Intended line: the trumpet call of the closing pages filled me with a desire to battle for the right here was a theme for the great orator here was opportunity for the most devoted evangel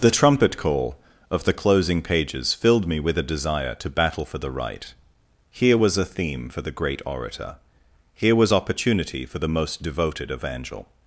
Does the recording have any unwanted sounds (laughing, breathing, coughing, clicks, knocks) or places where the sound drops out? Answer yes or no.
no